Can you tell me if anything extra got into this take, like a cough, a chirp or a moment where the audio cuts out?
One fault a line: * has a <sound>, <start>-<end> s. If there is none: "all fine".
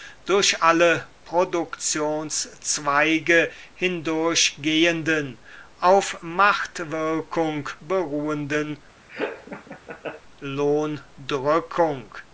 * has a laugh, 9.1-10.2 s